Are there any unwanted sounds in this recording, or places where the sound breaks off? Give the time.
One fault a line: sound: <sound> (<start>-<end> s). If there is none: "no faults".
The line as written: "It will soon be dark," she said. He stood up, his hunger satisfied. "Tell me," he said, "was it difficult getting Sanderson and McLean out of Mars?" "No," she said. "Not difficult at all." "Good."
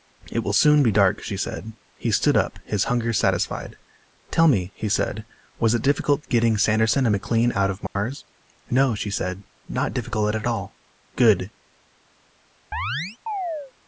sound: dropout (7.9-8.0 s)
sound: chirp (12.7-13.7 s)